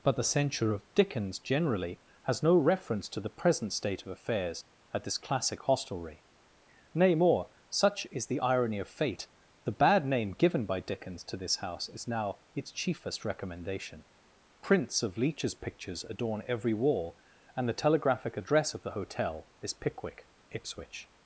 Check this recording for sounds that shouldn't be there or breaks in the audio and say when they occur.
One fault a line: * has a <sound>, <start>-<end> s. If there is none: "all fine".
all fine